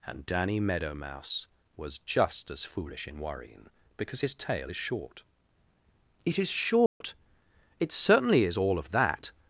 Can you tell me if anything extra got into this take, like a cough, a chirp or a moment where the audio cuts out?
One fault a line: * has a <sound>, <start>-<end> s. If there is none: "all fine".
* has a dropout, 6.9-7.0 s